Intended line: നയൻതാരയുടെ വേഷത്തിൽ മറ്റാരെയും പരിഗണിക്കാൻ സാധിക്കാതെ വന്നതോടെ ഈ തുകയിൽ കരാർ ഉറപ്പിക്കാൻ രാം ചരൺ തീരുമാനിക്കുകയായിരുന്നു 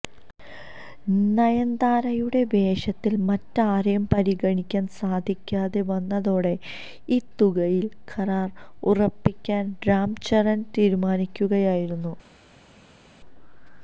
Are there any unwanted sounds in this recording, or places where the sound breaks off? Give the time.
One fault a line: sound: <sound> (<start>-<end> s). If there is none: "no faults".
no faults